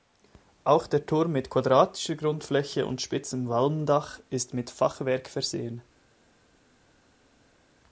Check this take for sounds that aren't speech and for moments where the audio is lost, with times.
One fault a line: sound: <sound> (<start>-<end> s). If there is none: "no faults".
no faults